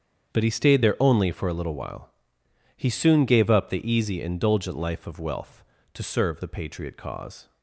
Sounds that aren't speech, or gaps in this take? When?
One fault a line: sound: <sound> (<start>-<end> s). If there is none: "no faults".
no faults